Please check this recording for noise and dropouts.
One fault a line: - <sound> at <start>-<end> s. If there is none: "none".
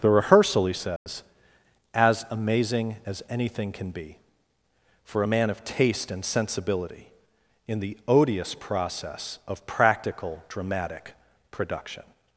- dropout at 1.0-1.1 s